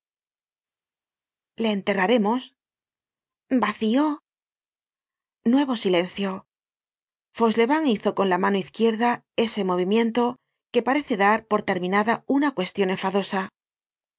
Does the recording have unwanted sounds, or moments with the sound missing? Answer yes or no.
no